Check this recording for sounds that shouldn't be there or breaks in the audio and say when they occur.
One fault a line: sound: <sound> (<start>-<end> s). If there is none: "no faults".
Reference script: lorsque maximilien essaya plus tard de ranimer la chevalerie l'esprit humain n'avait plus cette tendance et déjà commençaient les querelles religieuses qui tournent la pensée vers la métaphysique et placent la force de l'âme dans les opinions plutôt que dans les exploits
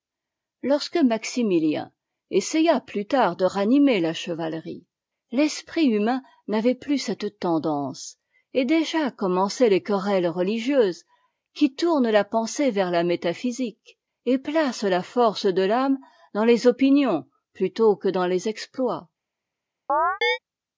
sound: chirp (19.9-20.4 s)